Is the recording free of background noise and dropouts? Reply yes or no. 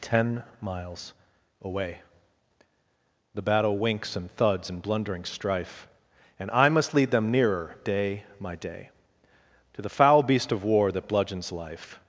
yes